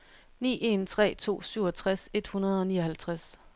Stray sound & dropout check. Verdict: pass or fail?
pass